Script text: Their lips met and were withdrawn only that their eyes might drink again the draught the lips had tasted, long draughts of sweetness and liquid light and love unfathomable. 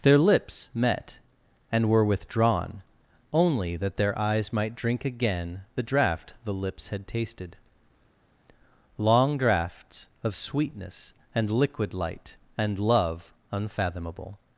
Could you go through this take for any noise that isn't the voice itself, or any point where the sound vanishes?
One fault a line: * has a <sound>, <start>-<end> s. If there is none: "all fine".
all fine